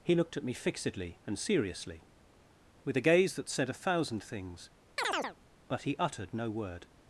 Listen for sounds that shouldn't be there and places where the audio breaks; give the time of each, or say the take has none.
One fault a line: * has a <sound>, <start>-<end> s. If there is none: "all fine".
* has a chirp, 5.0-5.4 s